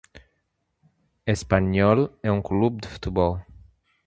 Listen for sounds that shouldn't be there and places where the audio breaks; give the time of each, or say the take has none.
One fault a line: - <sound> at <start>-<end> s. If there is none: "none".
none